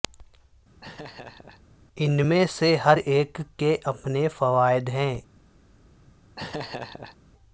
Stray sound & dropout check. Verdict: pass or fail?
fail